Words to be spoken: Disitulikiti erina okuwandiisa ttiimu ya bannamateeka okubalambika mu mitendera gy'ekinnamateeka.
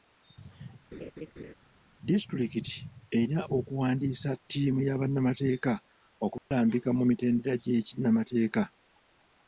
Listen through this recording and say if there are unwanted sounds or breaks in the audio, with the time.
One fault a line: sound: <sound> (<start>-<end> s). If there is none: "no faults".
sound: laugh (0.9-1.5 s)
sound: dropout (6.4-6.5 s)